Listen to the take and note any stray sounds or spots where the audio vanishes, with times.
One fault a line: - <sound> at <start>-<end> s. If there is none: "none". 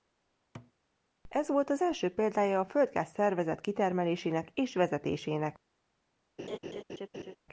- thud at 0.5-0.7 s
- laugh at 6.4-7.4 s